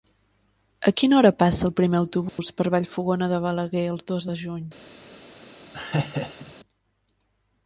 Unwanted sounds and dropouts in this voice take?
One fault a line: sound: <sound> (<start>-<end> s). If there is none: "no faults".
sound: dropout (2.3-2.4 s)
sound: laugh (5.7-6.5 s)